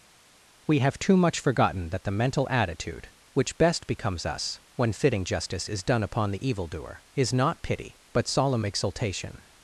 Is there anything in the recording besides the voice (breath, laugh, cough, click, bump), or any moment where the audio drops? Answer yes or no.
no